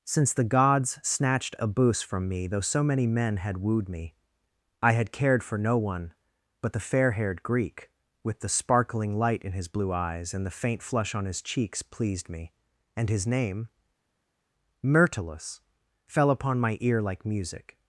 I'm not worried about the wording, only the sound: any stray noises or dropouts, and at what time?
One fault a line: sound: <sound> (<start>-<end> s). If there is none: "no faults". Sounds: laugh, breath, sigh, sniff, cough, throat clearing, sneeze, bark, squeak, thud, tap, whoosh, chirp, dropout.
no faults